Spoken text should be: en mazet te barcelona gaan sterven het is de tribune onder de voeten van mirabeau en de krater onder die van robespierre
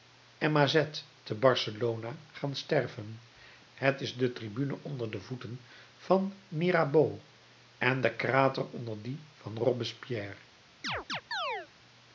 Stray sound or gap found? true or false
true